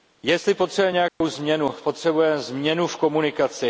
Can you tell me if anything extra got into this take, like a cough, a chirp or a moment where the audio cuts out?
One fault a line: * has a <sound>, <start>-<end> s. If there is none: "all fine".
* has a dropout, 1.1-1.2 s